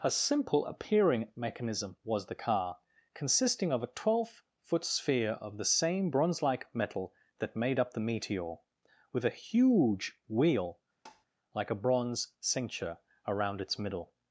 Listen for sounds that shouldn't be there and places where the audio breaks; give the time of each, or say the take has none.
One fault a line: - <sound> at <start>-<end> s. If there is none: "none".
- tap at 11.1-11.3 s